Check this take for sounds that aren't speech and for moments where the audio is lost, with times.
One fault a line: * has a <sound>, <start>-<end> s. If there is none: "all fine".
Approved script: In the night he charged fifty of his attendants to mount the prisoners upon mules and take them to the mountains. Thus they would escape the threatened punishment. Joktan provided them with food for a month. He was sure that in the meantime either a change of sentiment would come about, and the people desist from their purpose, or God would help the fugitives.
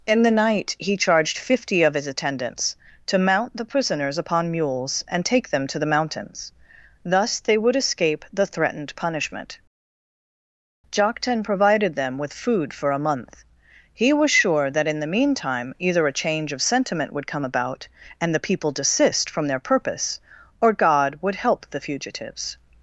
all fine